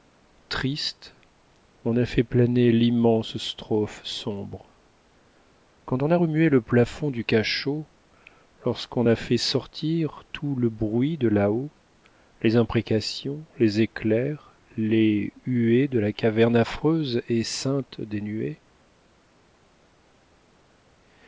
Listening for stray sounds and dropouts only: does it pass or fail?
pass